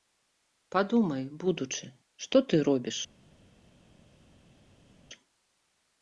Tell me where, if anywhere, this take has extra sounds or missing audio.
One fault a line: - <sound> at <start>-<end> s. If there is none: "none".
none